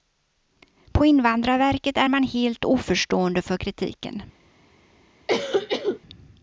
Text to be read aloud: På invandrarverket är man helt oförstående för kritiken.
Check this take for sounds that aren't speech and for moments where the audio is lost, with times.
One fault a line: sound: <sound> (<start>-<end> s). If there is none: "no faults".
sound: cough (5.3-6.0 s)